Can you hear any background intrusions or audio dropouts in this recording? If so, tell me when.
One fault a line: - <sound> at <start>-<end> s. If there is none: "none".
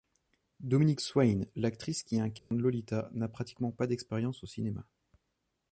- dropout at 2.4-2.5 s